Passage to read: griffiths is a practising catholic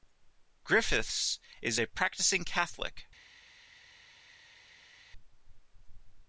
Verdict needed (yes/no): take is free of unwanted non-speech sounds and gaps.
yes